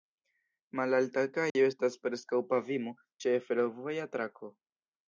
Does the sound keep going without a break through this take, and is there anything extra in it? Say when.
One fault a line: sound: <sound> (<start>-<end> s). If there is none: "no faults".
sound: dropout (1.5-1.5 s)